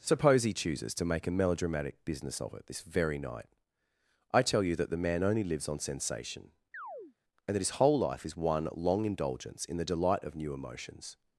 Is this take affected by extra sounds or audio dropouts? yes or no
yes